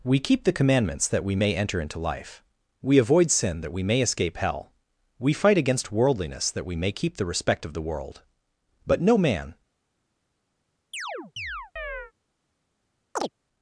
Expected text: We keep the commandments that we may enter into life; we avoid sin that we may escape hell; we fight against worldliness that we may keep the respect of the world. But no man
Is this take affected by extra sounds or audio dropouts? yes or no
yes